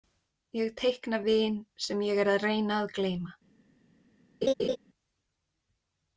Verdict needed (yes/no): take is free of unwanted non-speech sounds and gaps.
no